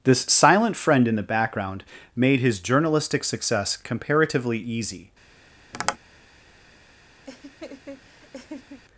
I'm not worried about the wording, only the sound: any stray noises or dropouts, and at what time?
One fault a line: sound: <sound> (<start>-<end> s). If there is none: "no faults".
sound: tap (5.7-6.0 s)
sound: laugh (7.3-8.8 s)